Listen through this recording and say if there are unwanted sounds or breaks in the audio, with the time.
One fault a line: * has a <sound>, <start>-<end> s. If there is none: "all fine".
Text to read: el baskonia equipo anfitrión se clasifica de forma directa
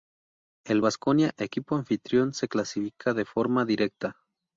all fine